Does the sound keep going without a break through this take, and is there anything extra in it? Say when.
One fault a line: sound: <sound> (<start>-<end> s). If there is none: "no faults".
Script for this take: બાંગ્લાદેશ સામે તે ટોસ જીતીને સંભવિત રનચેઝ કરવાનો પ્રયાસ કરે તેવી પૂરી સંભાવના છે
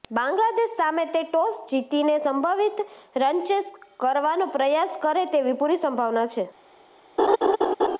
sound: laugh (7.2-8.0 s)